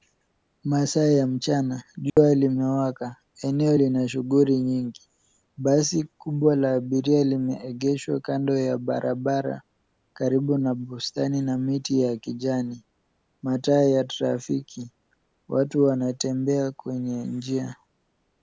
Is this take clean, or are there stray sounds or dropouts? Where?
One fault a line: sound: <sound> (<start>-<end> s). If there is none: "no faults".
sound: dropout (2.1-2.2 s)